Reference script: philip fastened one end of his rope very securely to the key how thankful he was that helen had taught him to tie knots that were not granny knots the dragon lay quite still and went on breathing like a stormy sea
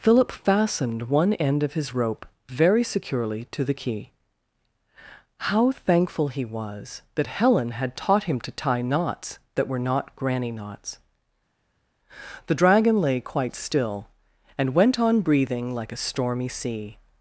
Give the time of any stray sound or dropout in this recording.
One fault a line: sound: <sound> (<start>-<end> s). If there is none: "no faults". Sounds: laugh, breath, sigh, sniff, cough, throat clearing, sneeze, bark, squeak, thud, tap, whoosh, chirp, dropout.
no faults